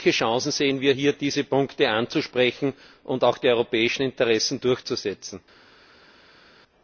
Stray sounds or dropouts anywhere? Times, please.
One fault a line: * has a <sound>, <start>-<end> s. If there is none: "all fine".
all fine